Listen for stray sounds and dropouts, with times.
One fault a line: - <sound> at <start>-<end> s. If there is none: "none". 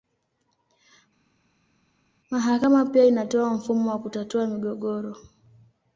none